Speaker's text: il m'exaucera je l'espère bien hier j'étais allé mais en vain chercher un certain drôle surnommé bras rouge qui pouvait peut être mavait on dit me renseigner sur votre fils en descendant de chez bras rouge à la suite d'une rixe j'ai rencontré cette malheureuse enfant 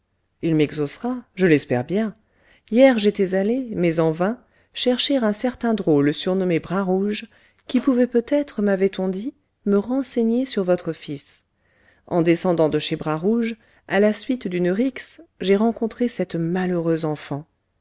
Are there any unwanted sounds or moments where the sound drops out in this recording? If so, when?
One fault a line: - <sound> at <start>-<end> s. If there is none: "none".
none